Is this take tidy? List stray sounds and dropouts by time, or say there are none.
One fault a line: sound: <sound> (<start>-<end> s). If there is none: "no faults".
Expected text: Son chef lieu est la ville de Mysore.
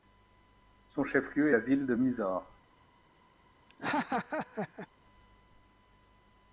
sound: laugh (3.7-4.9 s)